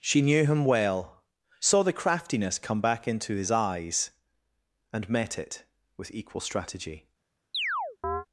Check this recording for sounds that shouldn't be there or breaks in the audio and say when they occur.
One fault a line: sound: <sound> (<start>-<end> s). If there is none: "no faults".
sound: chirp (7.5-8.3 s)